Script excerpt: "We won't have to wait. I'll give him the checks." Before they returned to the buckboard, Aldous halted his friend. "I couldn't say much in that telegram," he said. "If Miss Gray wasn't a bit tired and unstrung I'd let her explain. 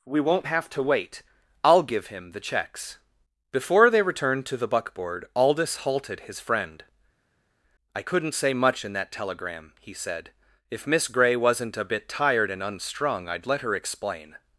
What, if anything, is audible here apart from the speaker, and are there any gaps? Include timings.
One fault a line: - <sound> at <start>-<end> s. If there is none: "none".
none